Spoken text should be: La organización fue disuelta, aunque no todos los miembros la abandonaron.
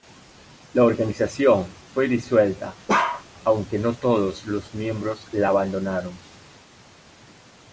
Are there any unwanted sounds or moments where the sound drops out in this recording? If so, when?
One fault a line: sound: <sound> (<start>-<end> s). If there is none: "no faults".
sound: bark (2.9-3.2 s)